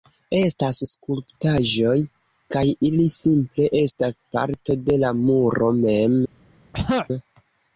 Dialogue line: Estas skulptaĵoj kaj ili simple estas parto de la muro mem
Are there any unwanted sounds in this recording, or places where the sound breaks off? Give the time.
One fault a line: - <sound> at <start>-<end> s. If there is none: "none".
- throat clearing at 6.7-7.1 s